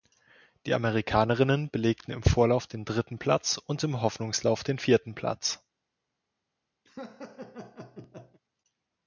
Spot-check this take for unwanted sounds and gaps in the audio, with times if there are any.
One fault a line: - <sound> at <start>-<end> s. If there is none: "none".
- laugh at 6.9-8.4 s